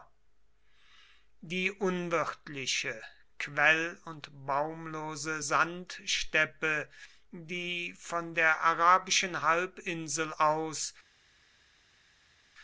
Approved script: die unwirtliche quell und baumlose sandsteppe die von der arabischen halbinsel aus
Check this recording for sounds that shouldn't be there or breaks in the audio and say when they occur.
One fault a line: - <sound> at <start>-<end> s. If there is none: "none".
none